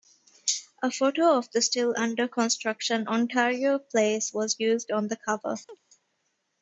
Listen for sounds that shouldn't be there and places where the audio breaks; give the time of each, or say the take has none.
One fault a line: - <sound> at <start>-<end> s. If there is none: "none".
- chirp at 5.7-5.8 s